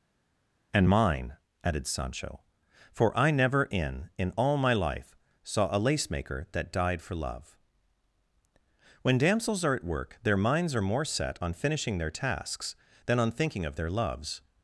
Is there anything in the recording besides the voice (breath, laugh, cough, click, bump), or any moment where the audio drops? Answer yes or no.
no